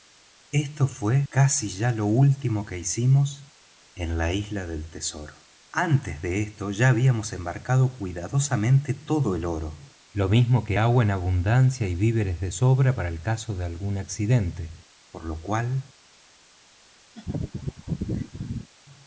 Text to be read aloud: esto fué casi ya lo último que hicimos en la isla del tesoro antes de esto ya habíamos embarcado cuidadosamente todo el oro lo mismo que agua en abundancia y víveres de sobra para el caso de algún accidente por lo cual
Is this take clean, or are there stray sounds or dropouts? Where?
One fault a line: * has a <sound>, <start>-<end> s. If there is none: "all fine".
* has a laugh, 17.1-18.7 s